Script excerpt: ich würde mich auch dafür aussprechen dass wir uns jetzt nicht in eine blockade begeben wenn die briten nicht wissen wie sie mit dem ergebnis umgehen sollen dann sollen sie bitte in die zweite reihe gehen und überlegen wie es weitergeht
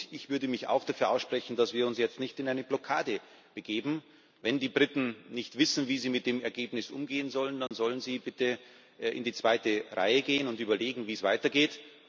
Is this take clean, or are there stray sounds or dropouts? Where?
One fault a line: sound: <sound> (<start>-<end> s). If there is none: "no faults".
sound: dropout (7.7-7.7 s)